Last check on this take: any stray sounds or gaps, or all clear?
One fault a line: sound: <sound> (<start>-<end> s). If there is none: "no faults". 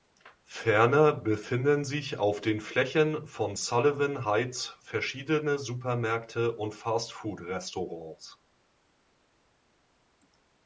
no faults